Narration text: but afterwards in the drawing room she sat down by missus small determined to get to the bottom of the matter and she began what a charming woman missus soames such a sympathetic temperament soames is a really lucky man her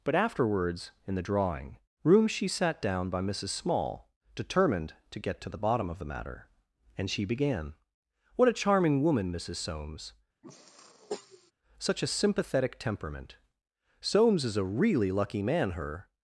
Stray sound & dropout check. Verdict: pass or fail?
fail